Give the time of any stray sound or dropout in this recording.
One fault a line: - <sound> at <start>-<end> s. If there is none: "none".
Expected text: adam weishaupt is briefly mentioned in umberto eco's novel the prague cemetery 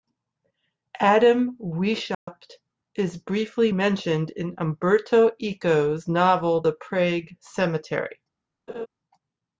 - dropout at 2.1-2.3 s
- laugh at 8.7-8.9 s